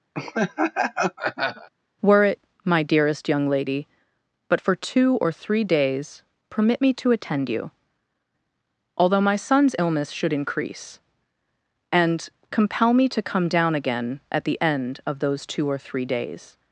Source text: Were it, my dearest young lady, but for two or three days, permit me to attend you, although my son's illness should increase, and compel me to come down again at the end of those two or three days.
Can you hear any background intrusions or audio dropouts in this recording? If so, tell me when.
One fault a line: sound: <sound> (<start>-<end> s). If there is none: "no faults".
sound: laugh (0.1-1.7 s)